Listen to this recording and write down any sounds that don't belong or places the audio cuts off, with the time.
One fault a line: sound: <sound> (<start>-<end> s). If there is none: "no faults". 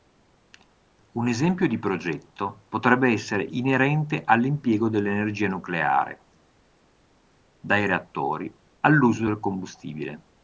no faults